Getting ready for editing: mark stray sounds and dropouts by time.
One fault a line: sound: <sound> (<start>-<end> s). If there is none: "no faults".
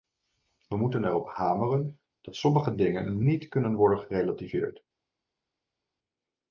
no faults